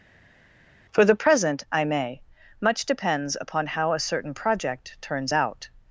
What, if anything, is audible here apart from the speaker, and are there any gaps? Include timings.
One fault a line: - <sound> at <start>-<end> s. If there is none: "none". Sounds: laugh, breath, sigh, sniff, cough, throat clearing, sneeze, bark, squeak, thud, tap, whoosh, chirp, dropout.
none